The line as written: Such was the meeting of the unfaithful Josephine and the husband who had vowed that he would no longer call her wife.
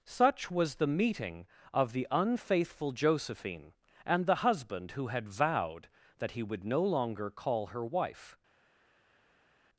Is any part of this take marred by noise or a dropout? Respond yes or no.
no